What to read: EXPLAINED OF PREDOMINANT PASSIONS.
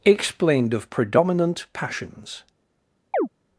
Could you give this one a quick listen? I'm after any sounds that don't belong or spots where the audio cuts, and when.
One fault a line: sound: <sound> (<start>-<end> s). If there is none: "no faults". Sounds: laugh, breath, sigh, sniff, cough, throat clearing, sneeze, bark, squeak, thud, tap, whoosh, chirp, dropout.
sound: chirp (3.1-3.3 s)